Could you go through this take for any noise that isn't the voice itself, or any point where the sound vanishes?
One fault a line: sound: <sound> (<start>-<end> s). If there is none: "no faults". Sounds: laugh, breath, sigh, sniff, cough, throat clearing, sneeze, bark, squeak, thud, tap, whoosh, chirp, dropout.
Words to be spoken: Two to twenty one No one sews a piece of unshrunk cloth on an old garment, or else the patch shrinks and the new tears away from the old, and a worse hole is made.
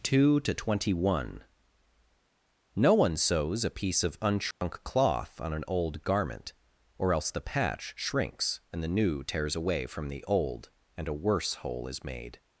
sound: dropout (4.5-4.6 s)